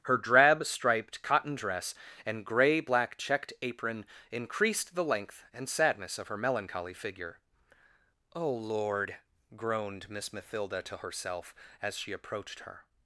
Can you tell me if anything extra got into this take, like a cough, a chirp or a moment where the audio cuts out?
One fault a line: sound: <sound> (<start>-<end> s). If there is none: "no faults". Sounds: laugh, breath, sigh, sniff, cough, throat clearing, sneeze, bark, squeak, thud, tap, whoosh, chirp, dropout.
no faults